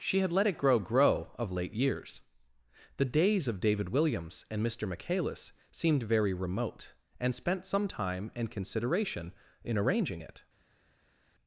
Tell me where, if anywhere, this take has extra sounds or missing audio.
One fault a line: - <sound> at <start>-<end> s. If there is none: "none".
none